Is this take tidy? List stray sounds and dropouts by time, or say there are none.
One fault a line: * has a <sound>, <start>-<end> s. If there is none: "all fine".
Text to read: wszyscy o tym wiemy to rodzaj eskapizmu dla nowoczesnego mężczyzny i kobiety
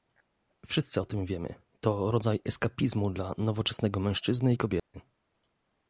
* has a dropout, 4.8-4.9 s